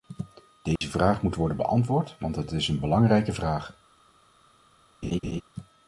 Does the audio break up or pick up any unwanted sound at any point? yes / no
yes